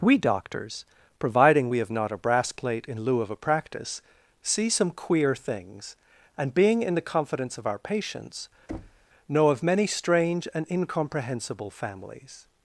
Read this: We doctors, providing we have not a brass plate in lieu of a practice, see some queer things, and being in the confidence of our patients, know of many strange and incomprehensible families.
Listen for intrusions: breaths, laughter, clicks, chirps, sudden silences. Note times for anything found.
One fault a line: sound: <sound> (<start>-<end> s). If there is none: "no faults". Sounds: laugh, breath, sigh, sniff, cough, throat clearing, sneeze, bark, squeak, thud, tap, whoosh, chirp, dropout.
sound: thud (8.7-9.1 s)